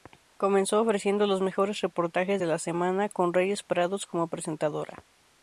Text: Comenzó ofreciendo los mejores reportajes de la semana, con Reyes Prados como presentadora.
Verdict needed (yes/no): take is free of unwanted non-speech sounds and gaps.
yes